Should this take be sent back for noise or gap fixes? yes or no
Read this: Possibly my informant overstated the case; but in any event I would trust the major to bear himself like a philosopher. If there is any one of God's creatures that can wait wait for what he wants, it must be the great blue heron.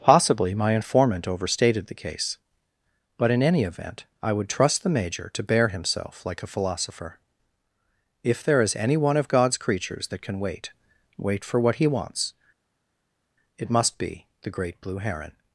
no